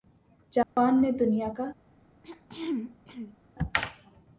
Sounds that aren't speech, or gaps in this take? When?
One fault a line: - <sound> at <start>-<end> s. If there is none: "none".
- dropout at 0.6-0.8 s
- throat clearing at 2.2-3.4 s